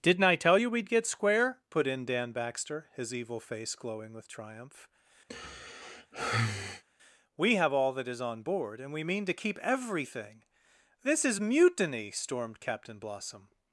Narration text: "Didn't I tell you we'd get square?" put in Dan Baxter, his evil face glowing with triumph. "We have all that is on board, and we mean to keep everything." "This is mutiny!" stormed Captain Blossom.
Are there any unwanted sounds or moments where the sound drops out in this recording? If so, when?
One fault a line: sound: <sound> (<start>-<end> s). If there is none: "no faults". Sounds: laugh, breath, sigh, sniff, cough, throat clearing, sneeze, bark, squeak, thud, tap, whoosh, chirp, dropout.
sound: sigh (5.3-6.8 s)